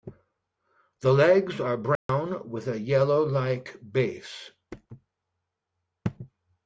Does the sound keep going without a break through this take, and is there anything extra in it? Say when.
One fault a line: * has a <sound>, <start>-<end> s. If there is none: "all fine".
* has a dropout, 2.0-2.1 s